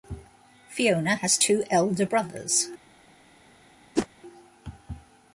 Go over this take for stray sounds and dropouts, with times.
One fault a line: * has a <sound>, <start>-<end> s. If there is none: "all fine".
* has a whoosh, 4.0-4.1 s